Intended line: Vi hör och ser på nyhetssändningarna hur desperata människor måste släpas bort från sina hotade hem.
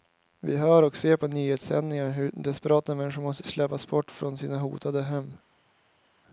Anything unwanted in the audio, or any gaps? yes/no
no